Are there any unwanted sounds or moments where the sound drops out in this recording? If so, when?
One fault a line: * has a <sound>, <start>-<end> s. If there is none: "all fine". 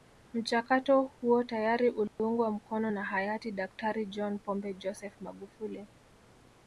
* has a dropout, 2.1-2.2 s